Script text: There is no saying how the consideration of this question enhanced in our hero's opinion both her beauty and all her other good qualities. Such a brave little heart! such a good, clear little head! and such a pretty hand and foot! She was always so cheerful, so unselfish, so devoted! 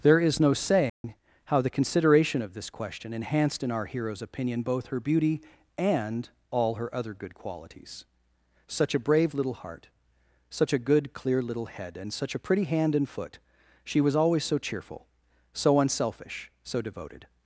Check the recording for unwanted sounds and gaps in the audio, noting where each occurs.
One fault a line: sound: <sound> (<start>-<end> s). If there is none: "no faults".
sound: dropout (0.9-1.0 s)